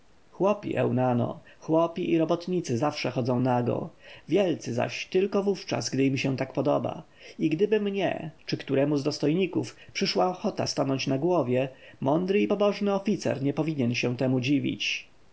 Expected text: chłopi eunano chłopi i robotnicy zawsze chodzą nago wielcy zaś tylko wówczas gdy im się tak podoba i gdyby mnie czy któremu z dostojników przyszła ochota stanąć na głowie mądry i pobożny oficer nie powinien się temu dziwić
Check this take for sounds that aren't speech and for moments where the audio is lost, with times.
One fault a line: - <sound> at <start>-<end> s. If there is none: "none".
none